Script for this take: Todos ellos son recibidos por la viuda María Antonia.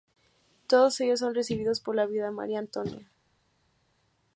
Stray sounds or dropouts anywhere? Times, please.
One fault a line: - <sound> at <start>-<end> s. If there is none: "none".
none